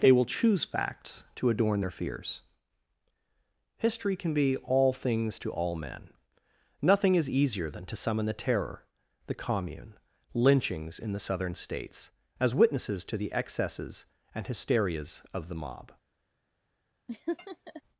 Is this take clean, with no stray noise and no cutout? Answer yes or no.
no